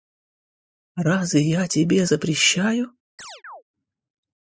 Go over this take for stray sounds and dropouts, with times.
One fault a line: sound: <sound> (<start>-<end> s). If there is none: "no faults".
sound: chirp (3.2-3.6 s)